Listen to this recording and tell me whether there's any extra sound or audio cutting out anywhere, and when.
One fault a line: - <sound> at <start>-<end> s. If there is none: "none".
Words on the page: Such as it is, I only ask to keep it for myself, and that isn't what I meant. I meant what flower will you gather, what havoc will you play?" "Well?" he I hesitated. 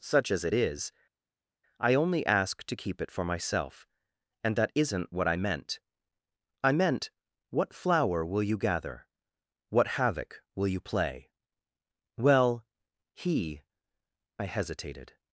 none